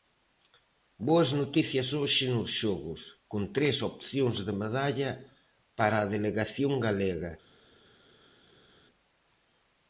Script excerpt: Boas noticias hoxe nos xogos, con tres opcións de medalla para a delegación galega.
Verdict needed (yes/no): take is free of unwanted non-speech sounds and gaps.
yes